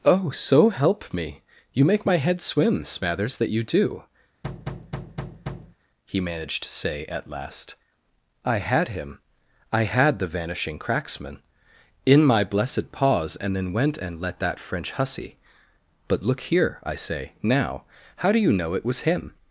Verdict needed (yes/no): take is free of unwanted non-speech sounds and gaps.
no